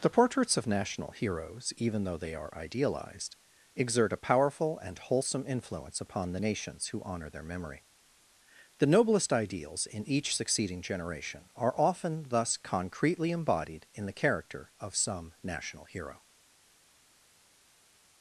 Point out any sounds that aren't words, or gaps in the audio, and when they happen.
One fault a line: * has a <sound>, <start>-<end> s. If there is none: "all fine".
all fine